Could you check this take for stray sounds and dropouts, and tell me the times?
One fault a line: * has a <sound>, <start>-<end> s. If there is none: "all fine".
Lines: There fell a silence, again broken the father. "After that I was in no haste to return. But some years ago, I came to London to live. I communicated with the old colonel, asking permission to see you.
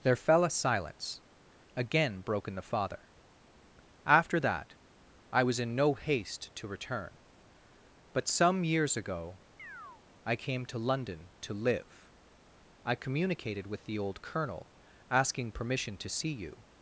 * has a chirp, 9.6-10.0 s